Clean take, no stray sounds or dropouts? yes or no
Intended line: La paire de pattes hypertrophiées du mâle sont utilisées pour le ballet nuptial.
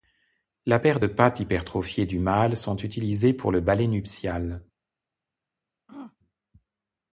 no